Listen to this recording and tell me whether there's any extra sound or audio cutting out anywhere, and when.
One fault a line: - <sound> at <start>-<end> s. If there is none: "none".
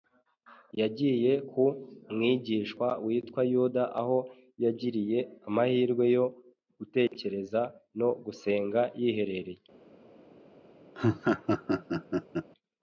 - dropout at 7.1-7.1 s
- laugh at 10.9-12.5 s